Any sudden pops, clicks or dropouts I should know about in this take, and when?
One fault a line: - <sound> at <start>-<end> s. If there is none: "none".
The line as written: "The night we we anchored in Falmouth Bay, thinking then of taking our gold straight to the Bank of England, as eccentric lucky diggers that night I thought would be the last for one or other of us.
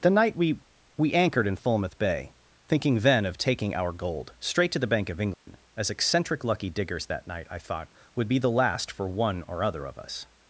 - dropout at 5.3-5.5 s